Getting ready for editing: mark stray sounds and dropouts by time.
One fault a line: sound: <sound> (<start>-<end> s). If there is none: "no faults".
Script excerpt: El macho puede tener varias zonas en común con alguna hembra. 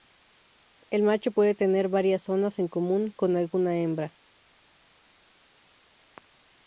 no faults